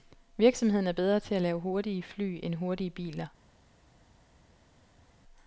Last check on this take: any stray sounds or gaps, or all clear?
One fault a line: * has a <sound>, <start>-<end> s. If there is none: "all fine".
all fine